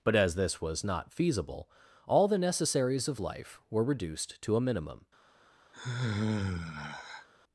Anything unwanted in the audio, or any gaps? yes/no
yes